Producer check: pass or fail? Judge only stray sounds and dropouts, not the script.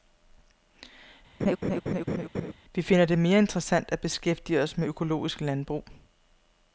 fail